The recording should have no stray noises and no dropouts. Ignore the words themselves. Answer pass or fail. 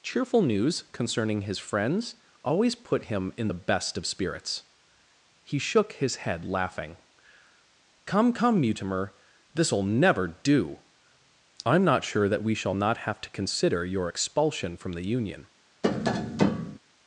fail